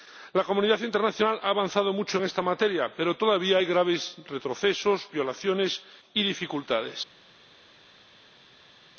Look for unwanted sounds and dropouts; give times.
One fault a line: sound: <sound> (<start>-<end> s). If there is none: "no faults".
no faults